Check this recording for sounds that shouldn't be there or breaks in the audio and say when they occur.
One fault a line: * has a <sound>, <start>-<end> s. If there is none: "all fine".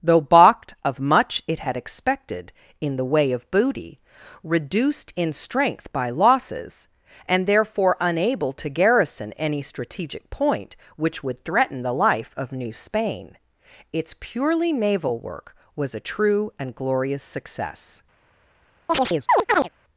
* has a chirp, 18.9-19.7 s